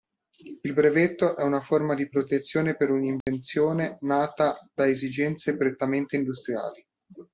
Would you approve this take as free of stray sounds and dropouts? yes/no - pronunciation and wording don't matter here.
no